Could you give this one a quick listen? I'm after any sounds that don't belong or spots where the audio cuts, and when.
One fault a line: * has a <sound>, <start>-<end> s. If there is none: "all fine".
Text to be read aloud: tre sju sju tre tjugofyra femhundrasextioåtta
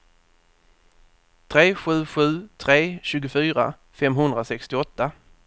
all fine